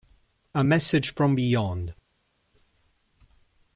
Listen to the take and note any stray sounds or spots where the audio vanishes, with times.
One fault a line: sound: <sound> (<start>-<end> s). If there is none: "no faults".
no faults